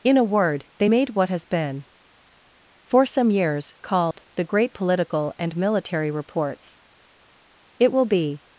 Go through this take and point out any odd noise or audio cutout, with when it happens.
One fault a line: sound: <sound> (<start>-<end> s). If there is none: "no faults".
sound: dropout (4.1-4.2 s)